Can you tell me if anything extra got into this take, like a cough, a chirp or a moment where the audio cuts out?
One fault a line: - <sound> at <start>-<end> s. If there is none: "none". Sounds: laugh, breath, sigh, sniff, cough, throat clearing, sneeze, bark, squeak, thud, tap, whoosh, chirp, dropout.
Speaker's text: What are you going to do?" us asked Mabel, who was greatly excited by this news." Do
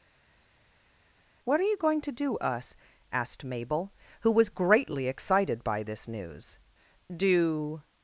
none